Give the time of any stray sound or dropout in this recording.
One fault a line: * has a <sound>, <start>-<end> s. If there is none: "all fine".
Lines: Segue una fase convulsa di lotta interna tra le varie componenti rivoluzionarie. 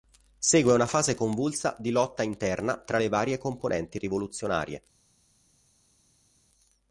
all fine